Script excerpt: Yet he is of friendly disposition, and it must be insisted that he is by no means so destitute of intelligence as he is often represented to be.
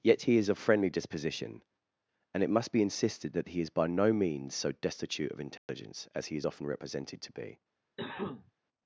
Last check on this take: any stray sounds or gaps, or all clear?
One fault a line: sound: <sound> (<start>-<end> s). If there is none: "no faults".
sound: dropout (5.6-5.7 s)
sound: cough (8.0-8.5 s)